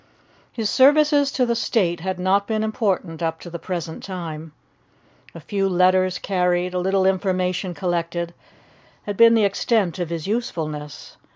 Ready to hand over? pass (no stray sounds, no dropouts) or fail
pass